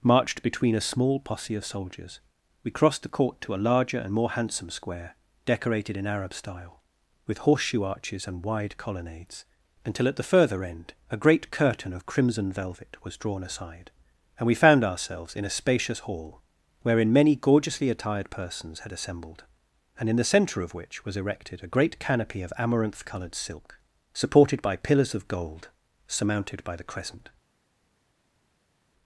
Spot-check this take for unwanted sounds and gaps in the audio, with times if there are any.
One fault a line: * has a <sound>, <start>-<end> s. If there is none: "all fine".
all fine